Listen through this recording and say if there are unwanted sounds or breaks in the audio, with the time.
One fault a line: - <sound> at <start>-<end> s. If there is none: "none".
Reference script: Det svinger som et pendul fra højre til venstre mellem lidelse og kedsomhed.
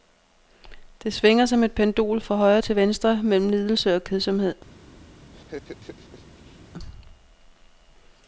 - laugh at 5.3-6.6 s